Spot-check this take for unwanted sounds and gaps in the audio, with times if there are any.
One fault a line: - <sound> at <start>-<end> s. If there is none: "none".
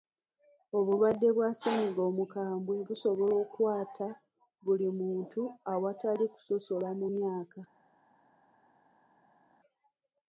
none